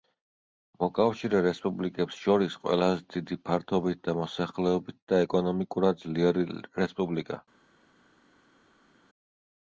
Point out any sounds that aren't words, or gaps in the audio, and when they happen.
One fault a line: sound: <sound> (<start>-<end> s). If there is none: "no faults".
no faults